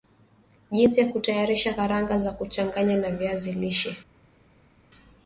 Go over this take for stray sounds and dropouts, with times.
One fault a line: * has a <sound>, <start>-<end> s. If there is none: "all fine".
all fine